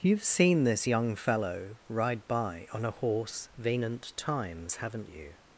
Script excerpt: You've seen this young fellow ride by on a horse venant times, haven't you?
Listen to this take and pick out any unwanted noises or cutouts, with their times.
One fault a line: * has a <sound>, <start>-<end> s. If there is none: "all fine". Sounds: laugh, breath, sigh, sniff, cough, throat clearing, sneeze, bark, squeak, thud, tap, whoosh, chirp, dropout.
all fine